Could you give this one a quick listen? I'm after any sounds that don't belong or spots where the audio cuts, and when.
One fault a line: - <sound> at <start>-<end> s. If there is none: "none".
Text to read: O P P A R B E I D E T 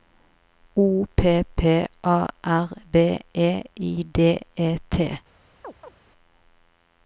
- chirp at 5.6-5.9 s